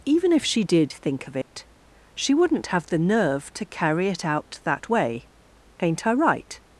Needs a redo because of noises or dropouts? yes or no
yes